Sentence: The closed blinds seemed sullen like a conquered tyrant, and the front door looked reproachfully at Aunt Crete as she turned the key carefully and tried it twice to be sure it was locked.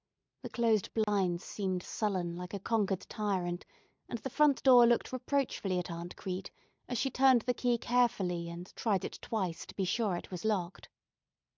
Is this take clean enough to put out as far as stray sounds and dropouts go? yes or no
no